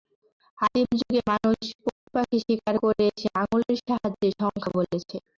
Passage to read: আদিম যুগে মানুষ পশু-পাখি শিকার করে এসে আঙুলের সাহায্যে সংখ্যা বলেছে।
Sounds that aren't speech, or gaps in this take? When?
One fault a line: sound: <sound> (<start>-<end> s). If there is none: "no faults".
sound: dropout (1.9-2.1 s)